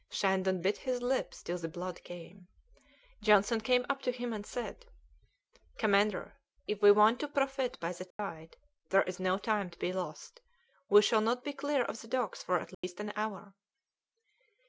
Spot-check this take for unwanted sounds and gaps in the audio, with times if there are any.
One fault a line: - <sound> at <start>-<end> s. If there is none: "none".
- dropout at 8.1-8.2 s
- dropout at 12.7-12.8 s